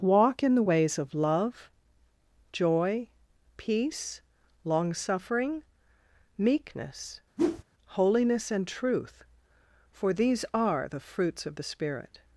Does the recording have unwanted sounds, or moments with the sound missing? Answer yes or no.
yes